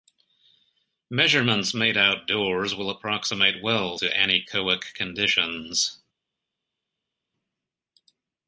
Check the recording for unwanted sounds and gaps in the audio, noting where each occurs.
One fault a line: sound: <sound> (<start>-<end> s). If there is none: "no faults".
no faults